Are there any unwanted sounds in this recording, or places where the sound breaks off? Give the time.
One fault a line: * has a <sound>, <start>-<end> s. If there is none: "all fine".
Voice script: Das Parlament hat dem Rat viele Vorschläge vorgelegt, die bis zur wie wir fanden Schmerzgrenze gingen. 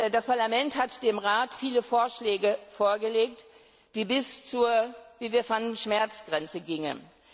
all fine